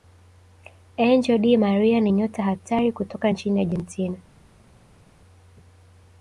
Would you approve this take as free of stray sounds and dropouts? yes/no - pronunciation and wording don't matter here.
yes